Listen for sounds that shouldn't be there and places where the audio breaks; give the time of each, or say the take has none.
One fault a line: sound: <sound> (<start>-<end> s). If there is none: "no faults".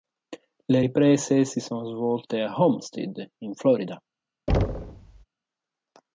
sound: thud (4.5-5.2 s)